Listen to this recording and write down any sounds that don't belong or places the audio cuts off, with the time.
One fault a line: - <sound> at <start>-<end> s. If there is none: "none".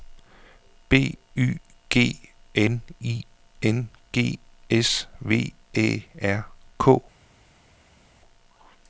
none